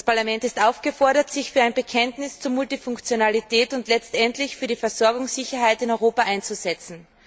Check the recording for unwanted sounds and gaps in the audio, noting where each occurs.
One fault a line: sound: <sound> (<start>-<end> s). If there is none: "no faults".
no faults